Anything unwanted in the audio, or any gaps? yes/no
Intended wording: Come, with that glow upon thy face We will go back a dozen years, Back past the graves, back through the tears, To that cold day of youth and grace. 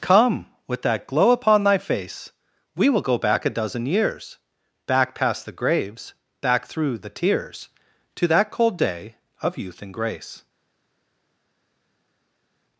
no